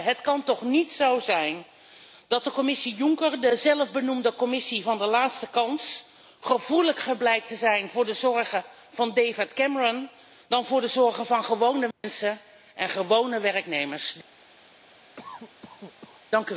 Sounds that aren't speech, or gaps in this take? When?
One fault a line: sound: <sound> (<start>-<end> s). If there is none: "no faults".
sound: dropout (11.9-12.0 s)
sound: cough (15.2-16.2 s)